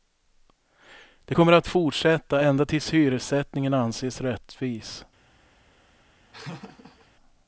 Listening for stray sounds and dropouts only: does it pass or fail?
fail